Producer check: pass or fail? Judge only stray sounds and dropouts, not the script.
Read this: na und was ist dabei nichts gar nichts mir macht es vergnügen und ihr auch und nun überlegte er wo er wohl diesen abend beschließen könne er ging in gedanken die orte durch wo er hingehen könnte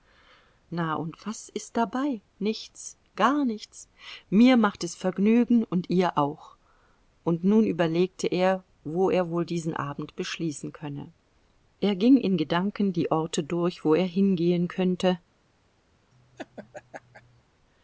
fail